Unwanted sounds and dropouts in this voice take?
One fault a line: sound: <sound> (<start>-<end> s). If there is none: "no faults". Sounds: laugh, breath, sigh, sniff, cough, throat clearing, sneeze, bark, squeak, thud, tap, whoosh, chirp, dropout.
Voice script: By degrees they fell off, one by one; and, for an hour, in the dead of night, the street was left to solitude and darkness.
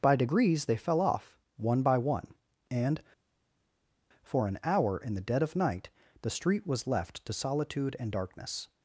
no faults